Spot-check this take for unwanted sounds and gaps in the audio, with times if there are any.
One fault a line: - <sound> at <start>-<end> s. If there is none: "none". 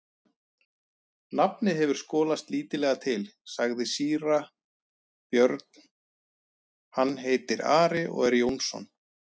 none